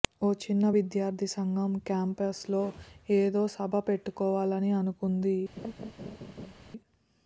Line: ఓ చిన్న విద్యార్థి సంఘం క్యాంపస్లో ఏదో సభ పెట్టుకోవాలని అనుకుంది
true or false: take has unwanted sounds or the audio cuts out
true